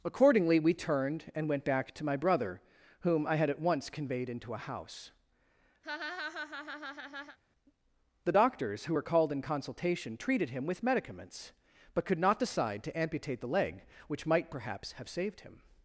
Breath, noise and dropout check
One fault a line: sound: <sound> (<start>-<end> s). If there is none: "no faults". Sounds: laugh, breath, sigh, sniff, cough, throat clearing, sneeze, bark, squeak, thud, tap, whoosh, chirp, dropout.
sound: laugh (5.8-7.4 s)